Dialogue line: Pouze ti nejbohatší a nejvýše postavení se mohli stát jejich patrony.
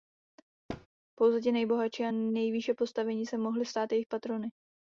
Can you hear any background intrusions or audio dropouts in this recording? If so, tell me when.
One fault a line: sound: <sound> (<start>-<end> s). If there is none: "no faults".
sound: thud (0.7-0.9 s)